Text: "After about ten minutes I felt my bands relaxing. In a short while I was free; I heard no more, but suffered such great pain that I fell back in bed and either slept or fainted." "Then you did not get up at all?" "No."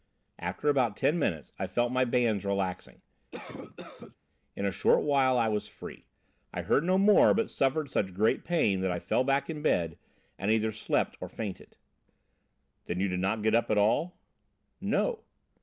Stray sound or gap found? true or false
true